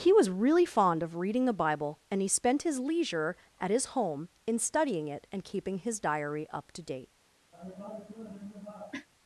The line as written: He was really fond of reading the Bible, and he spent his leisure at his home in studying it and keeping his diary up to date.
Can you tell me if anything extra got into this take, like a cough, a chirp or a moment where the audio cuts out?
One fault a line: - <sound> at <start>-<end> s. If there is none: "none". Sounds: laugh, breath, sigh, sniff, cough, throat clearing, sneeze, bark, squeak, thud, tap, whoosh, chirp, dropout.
- cough at 7.5-9.1 s